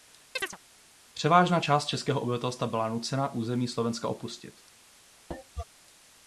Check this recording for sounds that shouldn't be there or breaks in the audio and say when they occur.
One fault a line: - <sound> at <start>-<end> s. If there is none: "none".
- chirp at 0.4-0.6 s
- cough at 5.3-5.6 s